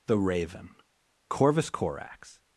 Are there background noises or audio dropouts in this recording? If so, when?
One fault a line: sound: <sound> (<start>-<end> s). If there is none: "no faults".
no faults